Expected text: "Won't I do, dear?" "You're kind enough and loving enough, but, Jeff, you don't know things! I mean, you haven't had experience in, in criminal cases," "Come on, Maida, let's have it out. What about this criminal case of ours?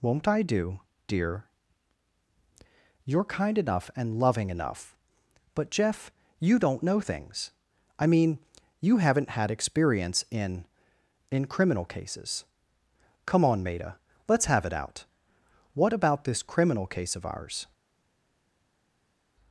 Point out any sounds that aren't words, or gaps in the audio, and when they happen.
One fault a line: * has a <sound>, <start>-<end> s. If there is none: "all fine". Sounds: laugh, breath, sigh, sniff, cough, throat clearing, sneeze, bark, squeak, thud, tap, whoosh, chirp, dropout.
all fine